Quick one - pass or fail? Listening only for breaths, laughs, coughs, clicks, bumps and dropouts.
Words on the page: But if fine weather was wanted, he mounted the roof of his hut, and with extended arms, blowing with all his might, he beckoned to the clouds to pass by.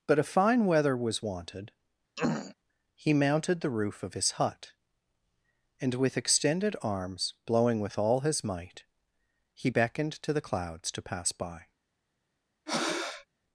fail